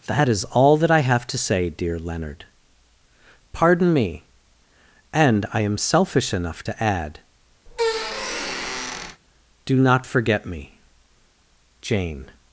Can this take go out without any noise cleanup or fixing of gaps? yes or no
no